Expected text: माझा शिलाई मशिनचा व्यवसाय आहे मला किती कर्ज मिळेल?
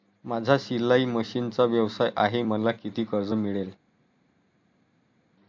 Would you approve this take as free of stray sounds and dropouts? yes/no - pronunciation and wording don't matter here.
yes